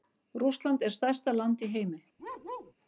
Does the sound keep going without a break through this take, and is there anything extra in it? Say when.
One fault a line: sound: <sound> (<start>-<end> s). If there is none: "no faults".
sound: bark (2.2-2.7 s)